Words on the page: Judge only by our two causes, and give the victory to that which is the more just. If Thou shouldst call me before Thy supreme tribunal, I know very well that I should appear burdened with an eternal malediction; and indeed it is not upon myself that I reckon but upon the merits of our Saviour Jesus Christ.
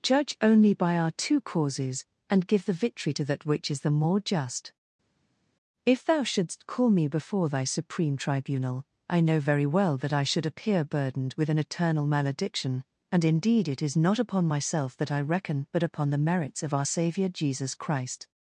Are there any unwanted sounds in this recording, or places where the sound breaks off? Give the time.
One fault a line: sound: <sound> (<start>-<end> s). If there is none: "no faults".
no faults